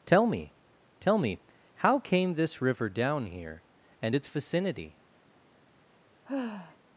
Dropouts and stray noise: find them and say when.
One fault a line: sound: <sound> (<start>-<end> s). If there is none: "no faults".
sound: sigh (6.2-6.8 s)